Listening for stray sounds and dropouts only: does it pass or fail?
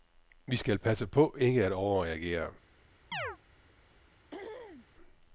fail